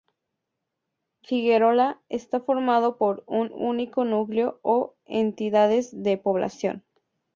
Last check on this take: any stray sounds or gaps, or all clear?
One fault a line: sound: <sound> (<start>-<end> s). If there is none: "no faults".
no faults